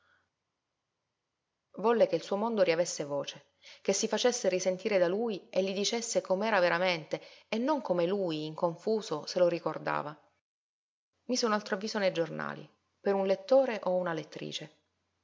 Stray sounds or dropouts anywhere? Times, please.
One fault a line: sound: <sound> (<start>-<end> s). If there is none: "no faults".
no faults